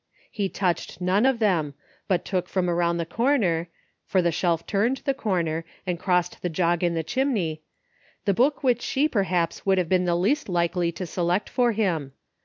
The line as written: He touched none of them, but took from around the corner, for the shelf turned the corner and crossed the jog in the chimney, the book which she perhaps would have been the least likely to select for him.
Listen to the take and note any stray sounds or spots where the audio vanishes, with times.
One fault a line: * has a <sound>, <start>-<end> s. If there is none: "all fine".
all fine